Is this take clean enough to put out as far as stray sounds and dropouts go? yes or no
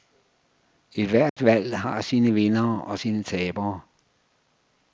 no